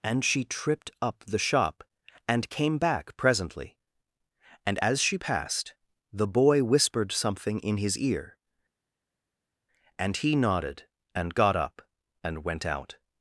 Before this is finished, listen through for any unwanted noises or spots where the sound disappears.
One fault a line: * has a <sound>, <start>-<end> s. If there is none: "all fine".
all fine